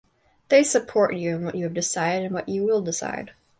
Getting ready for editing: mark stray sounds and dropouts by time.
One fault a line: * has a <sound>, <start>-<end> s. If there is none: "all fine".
all fine